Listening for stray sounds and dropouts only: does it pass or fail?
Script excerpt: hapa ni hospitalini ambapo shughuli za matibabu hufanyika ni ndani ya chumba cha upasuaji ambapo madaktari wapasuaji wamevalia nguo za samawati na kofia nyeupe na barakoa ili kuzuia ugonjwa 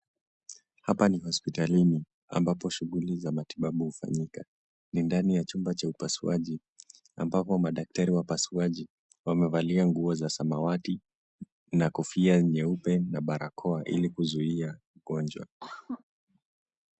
fail